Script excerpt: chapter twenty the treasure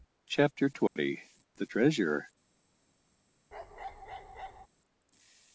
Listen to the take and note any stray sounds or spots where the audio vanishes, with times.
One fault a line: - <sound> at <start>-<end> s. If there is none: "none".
- dropout at 0.9-1.0 s
- bark at 3.5-4.7 s